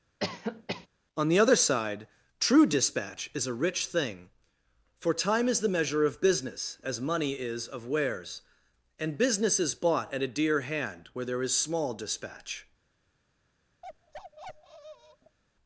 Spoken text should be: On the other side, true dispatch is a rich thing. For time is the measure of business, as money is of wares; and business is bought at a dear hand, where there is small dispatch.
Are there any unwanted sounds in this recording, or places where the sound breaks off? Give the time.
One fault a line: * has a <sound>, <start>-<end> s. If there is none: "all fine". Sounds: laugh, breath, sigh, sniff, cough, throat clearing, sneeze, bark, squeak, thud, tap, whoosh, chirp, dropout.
* has a cough, 0.2-0.9 s
* has a bark, 13.8-15.4 s